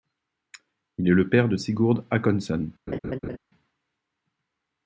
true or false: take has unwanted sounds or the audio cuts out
true